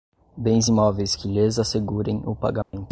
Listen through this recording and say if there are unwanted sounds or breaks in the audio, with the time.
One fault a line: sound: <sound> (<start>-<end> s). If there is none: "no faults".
sound: dropout (2.6-2.7 s)